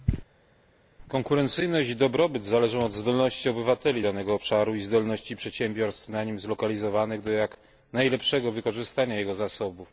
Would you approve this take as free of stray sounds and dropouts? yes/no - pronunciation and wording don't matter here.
yes